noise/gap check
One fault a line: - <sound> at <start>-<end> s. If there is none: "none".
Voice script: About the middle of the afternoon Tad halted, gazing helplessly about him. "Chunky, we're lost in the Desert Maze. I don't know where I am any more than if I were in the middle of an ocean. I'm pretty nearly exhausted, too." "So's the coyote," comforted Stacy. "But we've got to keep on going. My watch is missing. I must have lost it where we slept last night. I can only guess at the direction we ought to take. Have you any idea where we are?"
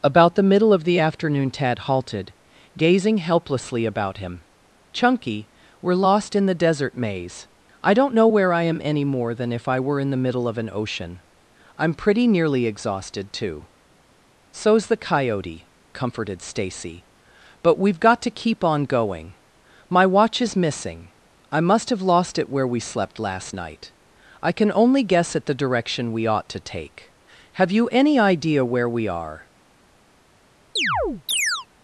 - chirp at 30.8-31.7 s